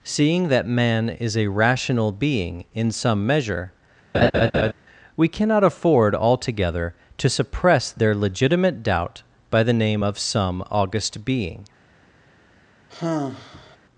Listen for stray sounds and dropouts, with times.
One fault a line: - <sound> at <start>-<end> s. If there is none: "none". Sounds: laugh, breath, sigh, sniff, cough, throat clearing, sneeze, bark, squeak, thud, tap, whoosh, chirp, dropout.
- laugh at 4.1-4.7 s
- sigh at 12.9-13.8 s